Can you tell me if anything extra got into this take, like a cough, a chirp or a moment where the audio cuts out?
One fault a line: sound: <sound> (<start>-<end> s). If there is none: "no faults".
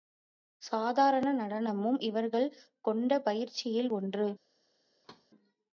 sound: thud (5.0-5.3 s)